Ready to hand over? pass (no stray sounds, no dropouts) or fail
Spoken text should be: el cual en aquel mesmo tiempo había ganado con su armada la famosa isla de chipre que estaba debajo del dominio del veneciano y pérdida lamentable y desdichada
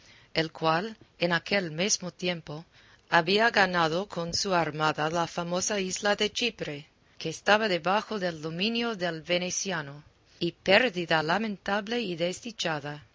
pass